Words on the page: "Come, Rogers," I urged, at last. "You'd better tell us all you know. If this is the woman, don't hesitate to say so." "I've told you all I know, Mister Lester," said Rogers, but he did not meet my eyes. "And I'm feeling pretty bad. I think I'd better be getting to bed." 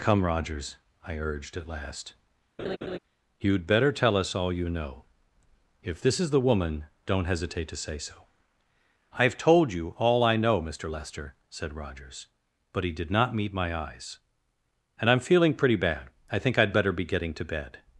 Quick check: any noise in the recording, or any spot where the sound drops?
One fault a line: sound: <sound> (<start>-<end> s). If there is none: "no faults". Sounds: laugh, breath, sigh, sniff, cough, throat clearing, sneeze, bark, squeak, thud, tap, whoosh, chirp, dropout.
sound: laugh (2.6-3.0 s)